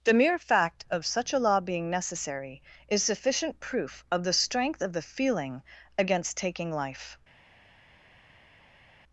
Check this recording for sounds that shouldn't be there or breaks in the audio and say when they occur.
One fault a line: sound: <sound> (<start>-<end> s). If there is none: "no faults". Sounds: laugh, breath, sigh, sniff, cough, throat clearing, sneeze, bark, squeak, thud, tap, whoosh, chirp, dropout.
no faults